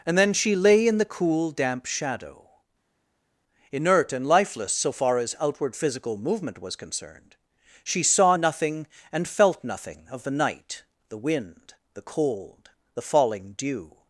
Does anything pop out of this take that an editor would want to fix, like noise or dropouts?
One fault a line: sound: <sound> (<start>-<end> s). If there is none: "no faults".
no faults